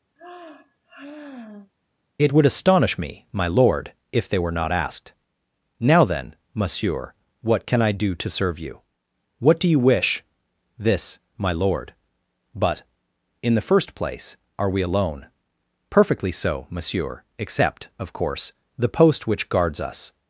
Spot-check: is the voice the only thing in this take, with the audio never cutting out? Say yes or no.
no